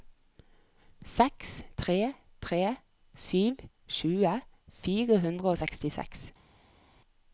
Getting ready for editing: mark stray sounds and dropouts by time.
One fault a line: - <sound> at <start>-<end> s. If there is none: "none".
none